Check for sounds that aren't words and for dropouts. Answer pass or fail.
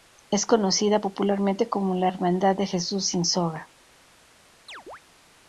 fail